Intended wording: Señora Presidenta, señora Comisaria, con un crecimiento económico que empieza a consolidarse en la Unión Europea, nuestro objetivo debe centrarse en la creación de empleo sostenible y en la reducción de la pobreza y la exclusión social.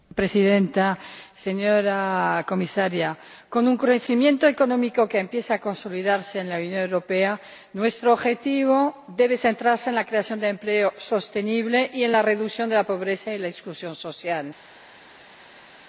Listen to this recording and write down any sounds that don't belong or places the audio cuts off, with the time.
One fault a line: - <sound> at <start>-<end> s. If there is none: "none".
none